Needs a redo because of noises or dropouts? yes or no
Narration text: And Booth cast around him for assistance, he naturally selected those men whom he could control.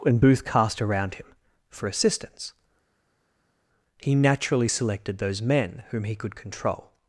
no